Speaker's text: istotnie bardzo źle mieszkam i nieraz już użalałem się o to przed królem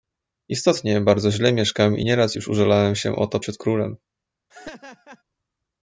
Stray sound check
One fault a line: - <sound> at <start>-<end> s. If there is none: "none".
- laugh at 4.5-5.2 s